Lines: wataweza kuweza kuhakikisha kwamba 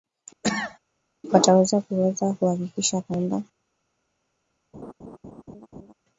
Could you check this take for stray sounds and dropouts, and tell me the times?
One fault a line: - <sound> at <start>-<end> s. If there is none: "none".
- cough at 0.4-0.8 s
- laugh at 4.7-5.9 s